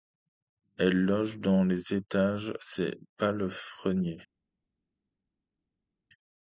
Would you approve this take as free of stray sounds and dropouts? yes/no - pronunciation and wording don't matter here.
yes